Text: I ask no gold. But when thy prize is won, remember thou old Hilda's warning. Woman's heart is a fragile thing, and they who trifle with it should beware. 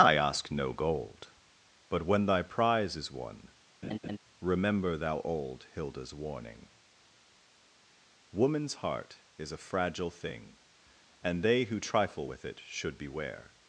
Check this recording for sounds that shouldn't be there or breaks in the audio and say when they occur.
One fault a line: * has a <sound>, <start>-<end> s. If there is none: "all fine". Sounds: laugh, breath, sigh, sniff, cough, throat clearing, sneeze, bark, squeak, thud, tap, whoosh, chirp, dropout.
* has a laugh, 3.8-4.2 s